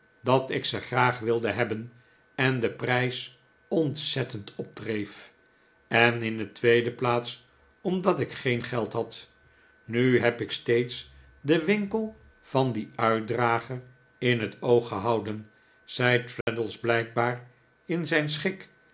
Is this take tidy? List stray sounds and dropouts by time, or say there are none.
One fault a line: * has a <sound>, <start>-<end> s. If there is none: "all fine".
* has a dropout, 16.4-16.5 s